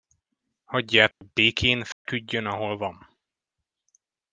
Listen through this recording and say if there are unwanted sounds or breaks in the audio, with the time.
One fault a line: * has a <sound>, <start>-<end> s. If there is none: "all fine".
* has a dropout, 1.1-1.2 s
* has a dropout, 1.9-2.1 s